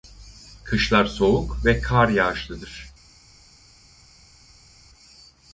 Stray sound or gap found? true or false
false